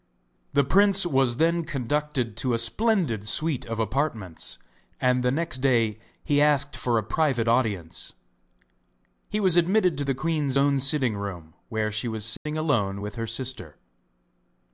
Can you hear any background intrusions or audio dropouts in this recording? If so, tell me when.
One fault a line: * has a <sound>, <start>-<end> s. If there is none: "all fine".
* has a dropout, 12.4-12.5 s